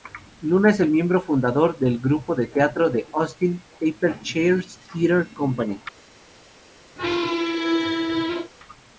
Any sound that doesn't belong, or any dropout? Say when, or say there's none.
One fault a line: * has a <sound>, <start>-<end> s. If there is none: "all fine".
* has a squeak, 7.0-8.5 s